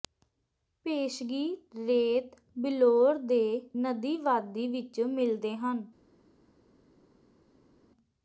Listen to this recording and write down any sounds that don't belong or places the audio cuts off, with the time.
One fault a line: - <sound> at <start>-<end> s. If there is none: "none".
none